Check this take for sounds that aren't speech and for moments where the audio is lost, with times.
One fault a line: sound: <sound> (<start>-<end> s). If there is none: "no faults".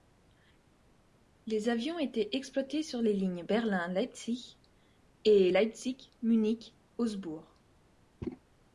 no faults